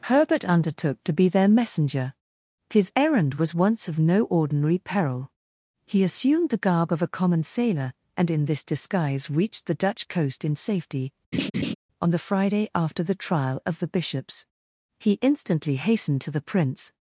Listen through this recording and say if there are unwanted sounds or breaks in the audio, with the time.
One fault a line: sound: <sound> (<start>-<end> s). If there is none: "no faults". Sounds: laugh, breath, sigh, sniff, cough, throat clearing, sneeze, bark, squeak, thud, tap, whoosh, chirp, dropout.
sound: laugh (11.3-11.7 s)